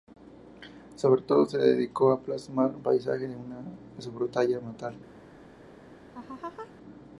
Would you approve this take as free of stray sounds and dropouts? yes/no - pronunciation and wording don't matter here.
no